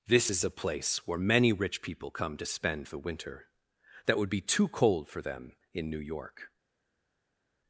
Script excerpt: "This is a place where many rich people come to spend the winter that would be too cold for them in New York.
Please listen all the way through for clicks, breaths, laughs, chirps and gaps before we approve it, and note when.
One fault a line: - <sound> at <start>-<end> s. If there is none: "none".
none